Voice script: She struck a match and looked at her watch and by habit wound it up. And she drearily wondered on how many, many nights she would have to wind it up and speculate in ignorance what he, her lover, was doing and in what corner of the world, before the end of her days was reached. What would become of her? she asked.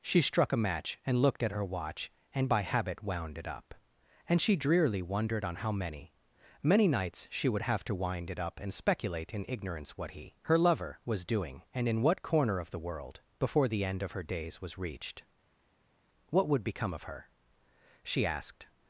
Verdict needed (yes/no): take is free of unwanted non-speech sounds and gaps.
yes